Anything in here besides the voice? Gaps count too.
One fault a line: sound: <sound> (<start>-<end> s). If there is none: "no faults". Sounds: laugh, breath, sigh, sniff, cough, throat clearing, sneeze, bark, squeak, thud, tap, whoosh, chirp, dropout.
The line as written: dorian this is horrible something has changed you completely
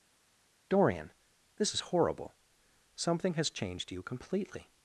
no faults